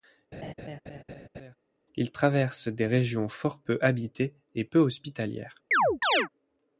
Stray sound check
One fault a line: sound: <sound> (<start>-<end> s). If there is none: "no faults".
sound: laugh (0.3-1.6 s)
sound: chirp (5.7-6.3 s)